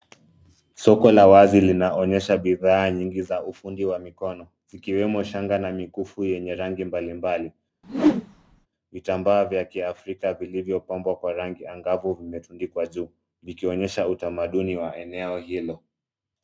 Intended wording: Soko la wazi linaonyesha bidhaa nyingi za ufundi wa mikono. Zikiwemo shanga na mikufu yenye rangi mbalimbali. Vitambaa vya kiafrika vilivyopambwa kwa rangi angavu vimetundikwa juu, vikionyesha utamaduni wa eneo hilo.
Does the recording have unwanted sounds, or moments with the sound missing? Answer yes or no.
yes